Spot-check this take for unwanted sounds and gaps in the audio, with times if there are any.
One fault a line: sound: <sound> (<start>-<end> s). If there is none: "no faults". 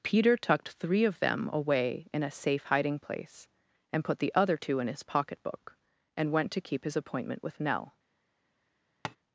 sound: tap (9.0-9.2 s)